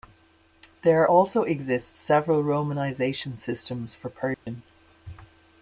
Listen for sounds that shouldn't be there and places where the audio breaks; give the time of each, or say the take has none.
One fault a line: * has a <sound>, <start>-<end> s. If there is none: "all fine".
* has a dropout, 4.3-4.5 s